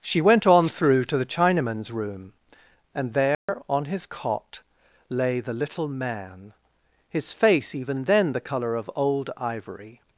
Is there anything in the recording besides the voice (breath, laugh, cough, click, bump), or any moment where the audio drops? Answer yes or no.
yes